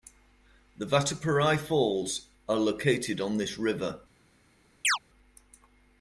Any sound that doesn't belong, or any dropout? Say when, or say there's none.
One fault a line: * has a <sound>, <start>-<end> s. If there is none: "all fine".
* has a chirp, 4.8-5.0 s